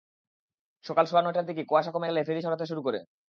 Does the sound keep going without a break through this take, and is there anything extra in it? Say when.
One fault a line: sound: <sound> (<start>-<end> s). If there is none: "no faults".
no faults